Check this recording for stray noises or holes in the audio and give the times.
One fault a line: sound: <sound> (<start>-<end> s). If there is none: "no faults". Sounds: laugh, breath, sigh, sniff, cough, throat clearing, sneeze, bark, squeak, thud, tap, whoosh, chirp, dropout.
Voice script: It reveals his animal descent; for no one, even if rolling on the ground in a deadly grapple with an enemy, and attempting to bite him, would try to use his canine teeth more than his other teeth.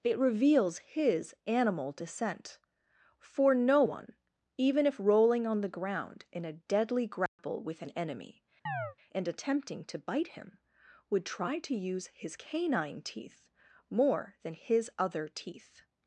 sound: dropout (7.3-7.4 s)
sound: chirp (8.7-9.0 s)